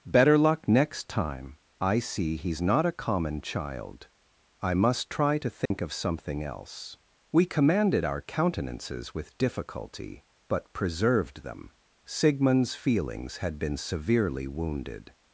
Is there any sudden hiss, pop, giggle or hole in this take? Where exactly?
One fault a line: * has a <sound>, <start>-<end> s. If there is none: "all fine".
* has a dropout, 5.7-5.7 s